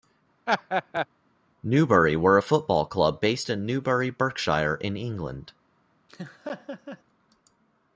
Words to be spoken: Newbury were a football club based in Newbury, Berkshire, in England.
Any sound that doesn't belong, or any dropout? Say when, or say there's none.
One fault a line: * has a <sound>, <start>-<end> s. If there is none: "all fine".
* has a laugh, 0.5-1.1 s
* has a laugh, 6.1-7.0 s